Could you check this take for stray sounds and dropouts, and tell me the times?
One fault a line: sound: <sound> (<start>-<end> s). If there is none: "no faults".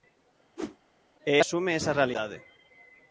sound: whoosh (0.6-0.8 s)